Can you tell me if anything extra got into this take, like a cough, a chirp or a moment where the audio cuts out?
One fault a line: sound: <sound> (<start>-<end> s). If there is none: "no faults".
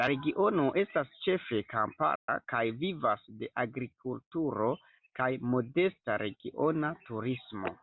sound: dropout (2.2-2.3 s)